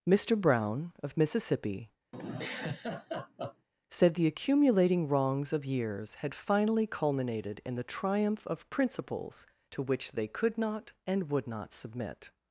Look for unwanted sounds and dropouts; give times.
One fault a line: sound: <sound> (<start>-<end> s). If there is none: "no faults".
sound: laugh (2.1-3.7 s)